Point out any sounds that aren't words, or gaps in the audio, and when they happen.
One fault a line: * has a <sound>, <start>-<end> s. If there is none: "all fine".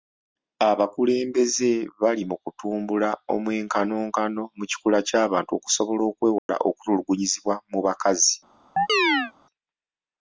* has a dropout, 6.4-6.5 s
* has a chirp, 8.8-9.3 s